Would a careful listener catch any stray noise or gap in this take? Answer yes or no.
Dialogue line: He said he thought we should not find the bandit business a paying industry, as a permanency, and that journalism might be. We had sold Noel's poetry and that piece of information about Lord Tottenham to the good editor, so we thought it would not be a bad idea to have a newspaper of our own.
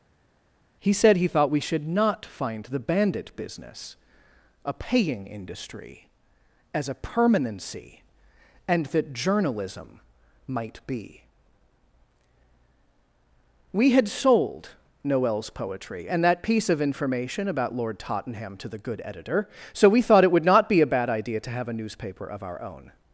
no